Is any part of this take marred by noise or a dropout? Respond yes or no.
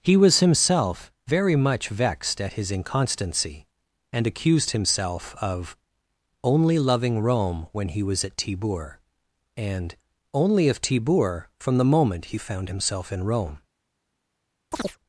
yes